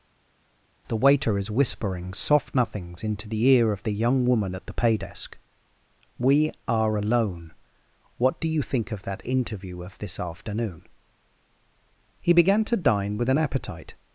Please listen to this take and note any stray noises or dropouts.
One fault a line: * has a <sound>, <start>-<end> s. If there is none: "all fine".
all fine